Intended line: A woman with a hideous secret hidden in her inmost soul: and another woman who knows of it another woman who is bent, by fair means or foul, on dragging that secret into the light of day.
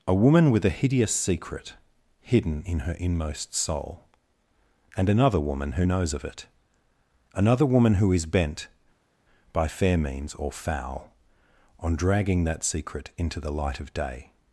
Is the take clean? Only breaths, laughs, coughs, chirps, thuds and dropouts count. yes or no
yes